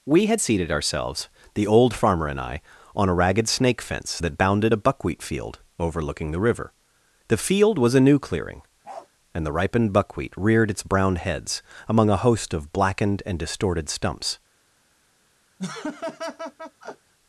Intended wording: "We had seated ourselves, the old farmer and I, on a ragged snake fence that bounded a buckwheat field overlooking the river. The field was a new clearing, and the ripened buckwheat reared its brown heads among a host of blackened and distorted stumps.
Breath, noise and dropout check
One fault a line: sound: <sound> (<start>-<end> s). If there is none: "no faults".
sound: bark (8.8-9.1 s)
sound: laugh (15.6-17.1 s)